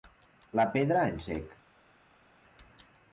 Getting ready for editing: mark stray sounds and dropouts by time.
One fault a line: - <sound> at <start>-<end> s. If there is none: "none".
none